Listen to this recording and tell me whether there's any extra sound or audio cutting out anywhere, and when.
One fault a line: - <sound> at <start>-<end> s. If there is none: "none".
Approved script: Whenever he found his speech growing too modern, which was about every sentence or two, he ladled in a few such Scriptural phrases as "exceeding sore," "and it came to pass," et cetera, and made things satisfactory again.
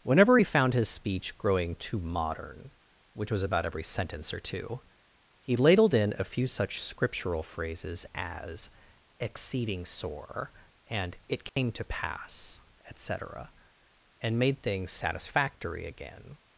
- dropout at 11.5-11.6 s